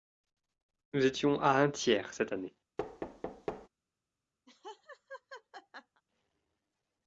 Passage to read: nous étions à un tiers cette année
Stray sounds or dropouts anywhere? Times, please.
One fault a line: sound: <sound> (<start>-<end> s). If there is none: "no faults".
sound: thud (2.8-3.7 s)
sound: laugh (4.5-6.0 s)